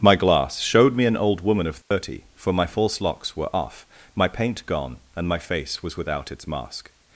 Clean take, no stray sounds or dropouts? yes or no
no